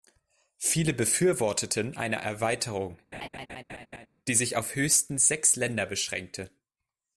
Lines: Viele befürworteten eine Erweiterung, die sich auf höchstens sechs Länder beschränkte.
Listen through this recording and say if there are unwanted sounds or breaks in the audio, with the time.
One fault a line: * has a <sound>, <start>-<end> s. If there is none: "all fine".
* has a laugh, 3.1-4.1 s